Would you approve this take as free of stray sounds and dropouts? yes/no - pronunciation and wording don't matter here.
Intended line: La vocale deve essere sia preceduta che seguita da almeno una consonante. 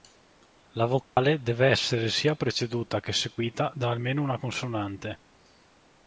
no